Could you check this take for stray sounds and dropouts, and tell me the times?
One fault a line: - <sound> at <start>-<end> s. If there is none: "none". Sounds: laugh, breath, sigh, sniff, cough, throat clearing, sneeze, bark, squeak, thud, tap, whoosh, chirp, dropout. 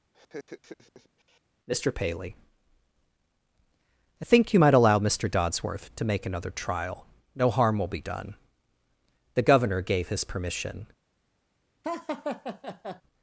- laugh at 0.1-1.4 s
- laugh at 11.8-13.0 s